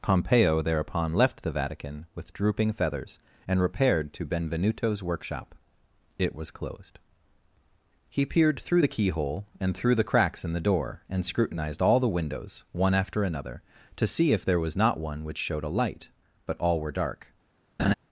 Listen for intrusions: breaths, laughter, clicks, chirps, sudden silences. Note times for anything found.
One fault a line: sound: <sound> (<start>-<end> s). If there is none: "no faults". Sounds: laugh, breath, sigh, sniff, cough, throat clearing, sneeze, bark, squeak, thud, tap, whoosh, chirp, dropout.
sound: laugh (17.8-17.9 s)